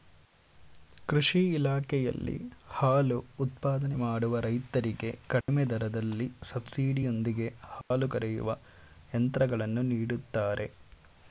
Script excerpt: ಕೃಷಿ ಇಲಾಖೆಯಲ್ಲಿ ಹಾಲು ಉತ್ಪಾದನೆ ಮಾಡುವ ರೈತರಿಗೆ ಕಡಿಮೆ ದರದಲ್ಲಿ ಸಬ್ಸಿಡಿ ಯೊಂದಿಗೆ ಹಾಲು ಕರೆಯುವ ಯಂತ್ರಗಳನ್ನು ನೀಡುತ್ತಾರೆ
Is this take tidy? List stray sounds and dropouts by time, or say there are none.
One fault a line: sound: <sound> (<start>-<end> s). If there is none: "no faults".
sound: dropout (5.4-5.5 s)
sound: dropout (7.8-7.9 s)